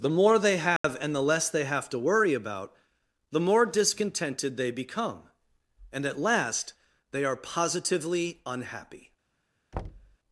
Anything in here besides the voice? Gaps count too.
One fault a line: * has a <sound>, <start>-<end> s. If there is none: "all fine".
* has a dropout, 0.8-0.8 s
* has a thud, 9.7-10.2 s